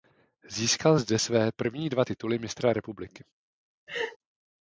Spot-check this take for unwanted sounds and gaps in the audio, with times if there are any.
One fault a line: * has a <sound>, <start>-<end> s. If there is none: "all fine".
* has a laugh, 3.9-4.2 s